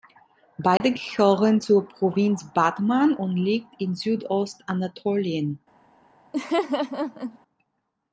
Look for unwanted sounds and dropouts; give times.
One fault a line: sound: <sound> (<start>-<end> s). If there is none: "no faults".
sound: dropout (0.8-0.8 s)
sound: laugh (6.3-7.4 s)